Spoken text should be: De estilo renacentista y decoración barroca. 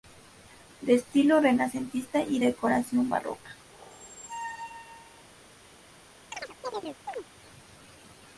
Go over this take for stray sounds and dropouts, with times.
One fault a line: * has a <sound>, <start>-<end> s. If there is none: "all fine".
* has a squeak, 3.7-5.2 s
* has a chirp, 6.3-7.3 s